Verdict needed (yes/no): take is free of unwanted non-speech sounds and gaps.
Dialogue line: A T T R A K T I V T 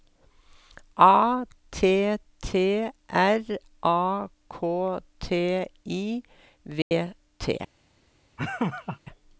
no